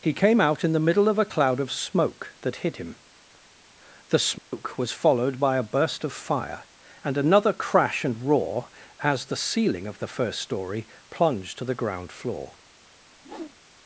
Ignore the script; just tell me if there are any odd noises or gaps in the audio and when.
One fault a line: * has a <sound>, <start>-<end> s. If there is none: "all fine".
* has a dropout, 4.4-4.5 s
* has a whoosh, 13.2-13.6 s